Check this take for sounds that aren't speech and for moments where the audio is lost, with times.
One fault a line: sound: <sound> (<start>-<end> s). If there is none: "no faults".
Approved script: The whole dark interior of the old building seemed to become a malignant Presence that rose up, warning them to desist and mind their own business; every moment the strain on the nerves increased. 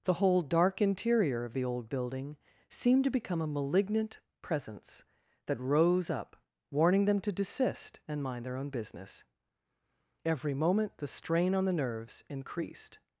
no faults